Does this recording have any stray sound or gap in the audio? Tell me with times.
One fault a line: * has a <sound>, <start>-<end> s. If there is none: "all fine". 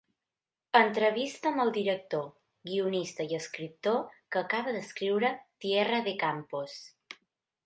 all fine